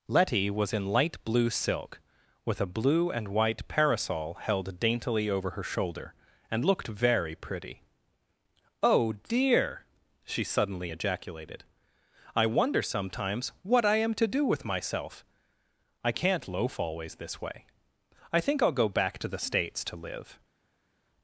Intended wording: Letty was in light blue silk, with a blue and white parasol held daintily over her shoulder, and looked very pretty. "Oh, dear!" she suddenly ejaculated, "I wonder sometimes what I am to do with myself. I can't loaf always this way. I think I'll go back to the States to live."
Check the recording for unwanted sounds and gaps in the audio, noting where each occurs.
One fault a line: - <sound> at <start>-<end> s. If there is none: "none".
none